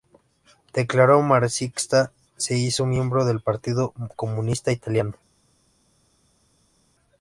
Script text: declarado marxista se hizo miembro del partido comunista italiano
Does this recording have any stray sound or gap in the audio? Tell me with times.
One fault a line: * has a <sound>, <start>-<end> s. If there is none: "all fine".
all fine